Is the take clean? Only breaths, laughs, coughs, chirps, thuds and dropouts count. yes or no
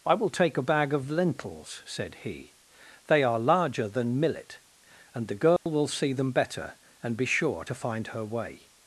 no